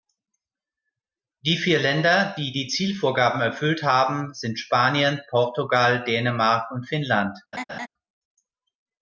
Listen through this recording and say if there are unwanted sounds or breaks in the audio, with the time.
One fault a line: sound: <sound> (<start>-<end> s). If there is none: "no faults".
sound: laugh (7.5-7.9 s)